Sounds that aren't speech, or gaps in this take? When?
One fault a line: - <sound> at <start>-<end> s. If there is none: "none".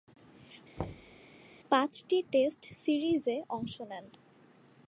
- thud at 0.8-1.2 s